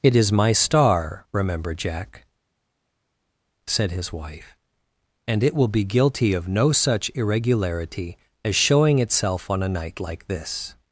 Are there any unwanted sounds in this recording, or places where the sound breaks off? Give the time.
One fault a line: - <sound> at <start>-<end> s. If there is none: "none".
none